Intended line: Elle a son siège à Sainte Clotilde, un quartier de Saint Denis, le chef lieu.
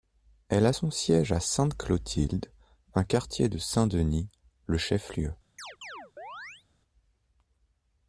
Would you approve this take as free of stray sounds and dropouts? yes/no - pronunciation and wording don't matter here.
no